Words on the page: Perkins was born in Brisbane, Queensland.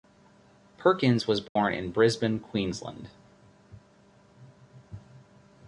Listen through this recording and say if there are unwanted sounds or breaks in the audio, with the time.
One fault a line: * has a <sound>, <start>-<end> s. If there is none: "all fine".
* has a dropout, 1.5-1.6 s